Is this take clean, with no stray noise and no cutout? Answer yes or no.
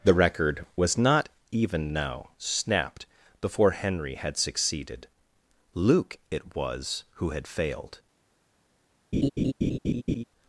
no